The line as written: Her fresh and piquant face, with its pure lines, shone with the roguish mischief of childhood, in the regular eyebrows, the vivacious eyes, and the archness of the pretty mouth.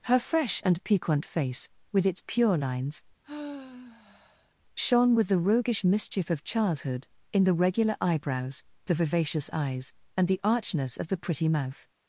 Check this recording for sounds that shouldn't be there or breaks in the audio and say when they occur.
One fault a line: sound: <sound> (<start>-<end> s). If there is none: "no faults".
sound: sigh (3.2-4.5 s)